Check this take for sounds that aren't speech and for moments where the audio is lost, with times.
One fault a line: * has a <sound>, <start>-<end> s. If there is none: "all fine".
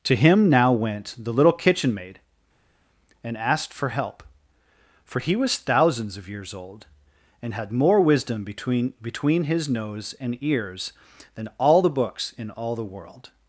all fine